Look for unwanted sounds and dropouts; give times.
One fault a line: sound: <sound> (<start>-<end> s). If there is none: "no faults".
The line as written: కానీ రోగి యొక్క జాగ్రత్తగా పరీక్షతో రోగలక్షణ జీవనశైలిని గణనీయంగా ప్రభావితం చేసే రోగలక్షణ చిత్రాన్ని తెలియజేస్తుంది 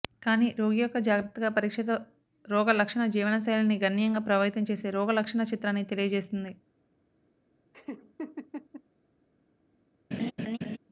sound: laugh (7.7-8.8 s)
sound: laugh (10.1-10.8 s)